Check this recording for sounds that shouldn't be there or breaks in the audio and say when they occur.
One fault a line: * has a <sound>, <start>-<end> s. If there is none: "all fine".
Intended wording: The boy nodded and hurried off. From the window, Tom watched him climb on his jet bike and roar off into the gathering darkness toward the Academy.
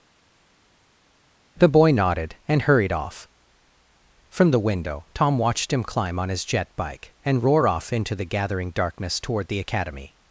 all fine